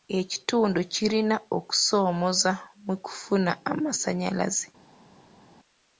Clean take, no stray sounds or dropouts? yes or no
yes